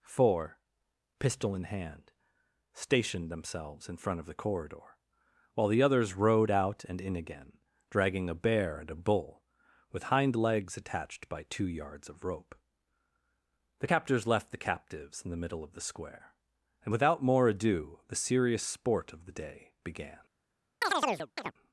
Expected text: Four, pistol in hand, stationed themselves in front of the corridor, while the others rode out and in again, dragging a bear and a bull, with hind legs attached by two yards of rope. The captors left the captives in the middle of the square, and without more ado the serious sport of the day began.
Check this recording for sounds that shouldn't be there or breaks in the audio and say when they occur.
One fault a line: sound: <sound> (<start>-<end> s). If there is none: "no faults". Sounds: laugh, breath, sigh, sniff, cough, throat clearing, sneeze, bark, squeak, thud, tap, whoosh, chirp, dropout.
sound: chirp (20.8-21.5 s)